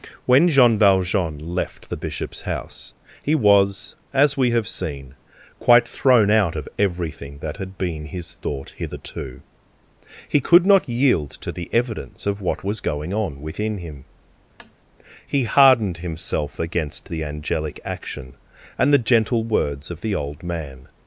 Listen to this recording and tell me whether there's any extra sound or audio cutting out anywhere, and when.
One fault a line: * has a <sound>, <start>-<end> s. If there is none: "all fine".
* has a tap, 14.6-14.7 s